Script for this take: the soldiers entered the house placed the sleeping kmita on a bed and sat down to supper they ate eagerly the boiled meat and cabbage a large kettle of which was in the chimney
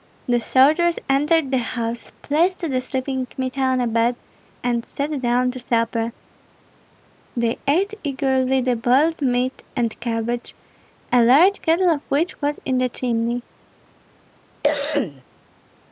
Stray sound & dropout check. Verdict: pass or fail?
fail